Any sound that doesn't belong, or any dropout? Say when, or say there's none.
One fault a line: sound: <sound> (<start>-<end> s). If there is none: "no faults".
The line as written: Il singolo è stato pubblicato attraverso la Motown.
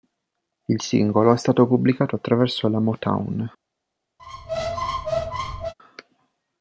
sound: squeak (4.2-5.7 s)